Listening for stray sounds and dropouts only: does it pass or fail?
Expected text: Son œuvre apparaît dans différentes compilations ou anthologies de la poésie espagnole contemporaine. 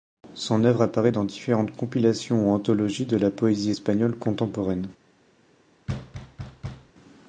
fail